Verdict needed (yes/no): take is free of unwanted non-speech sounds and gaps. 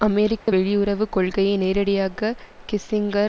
no